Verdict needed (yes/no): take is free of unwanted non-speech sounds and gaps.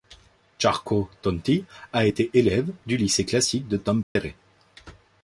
no